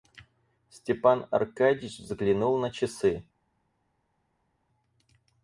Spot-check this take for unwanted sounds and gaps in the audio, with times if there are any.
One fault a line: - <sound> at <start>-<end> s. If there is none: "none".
none